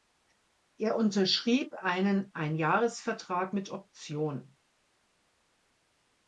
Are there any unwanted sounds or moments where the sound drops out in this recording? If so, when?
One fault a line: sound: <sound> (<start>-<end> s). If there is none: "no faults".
no faults